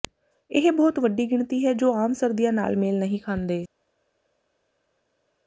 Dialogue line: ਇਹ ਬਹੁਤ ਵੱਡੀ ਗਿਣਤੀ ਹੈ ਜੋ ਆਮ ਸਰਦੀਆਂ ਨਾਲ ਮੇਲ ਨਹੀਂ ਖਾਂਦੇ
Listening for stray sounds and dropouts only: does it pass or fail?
pass